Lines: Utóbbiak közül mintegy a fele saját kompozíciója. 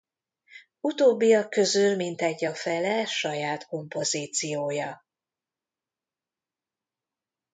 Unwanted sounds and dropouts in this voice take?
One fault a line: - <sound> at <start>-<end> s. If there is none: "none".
none